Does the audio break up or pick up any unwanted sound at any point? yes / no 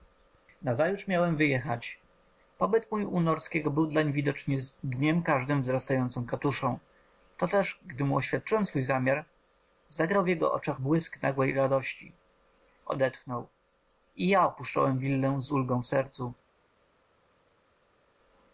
no